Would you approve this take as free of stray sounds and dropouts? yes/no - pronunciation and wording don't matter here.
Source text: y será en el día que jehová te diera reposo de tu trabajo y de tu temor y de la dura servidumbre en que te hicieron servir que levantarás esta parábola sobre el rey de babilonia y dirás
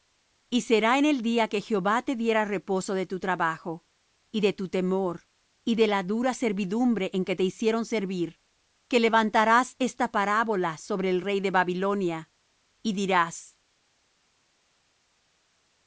yes